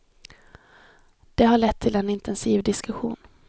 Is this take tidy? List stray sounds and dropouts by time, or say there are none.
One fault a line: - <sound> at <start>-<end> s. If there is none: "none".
none